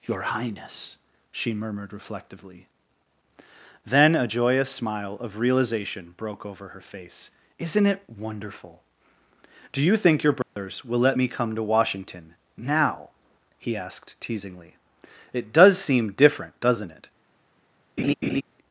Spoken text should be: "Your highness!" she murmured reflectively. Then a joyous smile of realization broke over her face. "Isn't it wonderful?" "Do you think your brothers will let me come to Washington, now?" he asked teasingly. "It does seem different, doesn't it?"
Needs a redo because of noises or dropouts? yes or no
yes